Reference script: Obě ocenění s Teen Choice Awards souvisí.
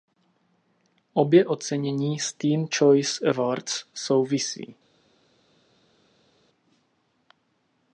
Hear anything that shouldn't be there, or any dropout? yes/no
no